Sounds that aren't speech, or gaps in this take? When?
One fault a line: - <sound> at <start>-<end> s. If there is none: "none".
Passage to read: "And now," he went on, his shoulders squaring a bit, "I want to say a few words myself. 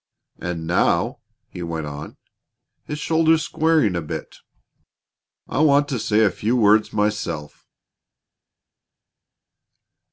none